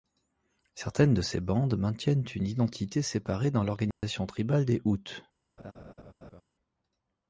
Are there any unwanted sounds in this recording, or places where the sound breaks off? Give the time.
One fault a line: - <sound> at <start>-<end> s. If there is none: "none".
- dropout at 3.9-4.0 s
- laugh at 5.6-6.4 s